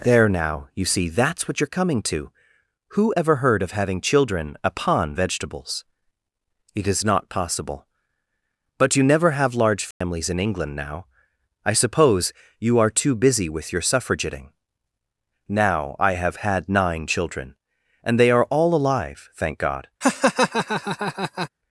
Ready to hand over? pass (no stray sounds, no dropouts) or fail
fail